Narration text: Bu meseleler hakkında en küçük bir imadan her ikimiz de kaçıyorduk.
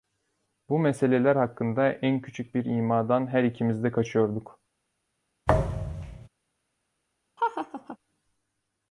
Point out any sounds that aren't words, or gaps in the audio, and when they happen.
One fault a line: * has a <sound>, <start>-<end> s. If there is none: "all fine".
* has a thud, 5.5-6.3 s
* has a laugh, 7.4-8.0 s